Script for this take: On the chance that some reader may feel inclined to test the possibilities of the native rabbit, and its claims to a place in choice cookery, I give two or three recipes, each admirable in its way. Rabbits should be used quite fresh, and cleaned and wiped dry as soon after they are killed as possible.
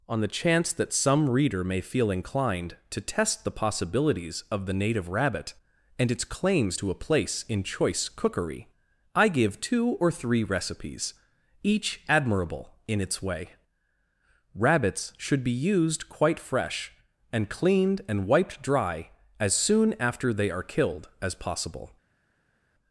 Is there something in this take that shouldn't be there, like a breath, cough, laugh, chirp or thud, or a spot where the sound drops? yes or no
no